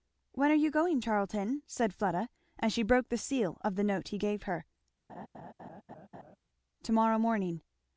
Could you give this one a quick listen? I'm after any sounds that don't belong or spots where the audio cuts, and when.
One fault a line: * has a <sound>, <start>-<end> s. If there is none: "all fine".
* has a laugh, 5.1-6.4 s